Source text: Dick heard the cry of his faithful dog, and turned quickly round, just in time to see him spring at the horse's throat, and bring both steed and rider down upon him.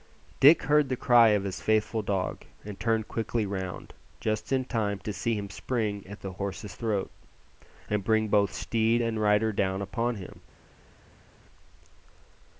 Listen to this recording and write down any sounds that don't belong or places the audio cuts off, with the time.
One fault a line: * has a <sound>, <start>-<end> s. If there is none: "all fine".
all fine